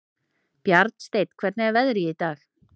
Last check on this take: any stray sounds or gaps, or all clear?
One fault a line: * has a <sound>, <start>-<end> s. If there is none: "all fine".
all fine